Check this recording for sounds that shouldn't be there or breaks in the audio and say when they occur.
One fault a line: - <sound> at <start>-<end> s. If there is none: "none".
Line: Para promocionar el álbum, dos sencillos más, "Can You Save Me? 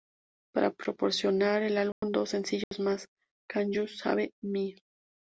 - dropout at 1.9-2.0 s
- dropout at 2.6-2.7 s